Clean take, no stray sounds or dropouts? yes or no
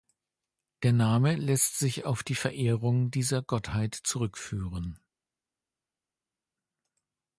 yes